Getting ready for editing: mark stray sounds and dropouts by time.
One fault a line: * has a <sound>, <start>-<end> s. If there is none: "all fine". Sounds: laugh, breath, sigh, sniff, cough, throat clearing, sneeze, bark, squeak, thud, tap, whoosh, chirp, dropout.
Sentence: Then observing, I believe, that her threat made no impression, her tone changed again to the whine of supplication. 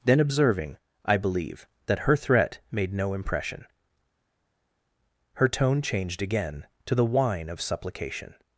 all fine